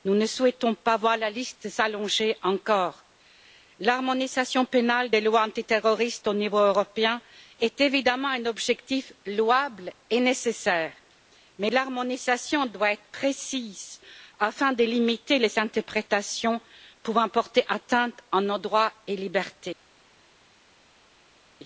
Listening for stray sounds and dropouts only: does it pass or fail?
pass